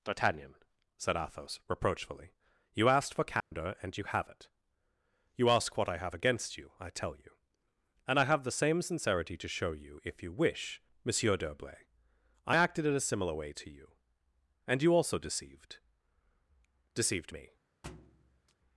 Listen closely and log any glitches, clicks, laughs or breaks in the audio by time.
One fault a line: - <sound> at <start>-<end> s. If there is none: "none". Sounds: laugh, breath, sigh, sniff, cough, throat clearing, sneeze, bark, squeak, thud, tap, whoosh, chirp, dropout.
- dropout at 3.4-3.5 s
- thud at 17.8-18.5 s